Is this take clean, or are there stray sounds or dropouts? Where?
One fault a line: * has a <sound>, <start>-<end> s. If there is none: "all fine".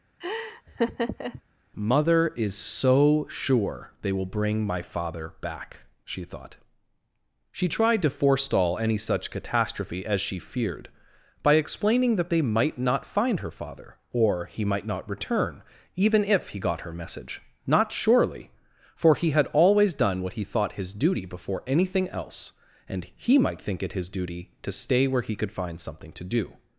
* has a laugh, 0.2-1.4 s